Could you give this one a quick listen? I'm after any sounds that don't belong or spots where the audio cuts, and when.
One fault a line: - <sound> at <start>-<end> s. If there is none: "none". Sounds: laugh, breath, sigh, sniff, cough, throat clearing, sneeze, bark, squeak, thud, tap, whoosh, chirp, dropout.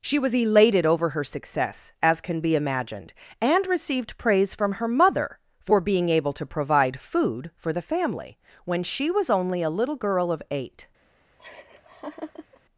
- laugh at 11.4-12.6 s